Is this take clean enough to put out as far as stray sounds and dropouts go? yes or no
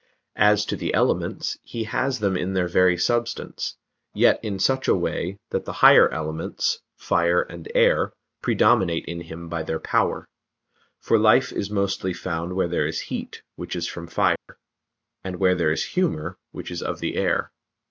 no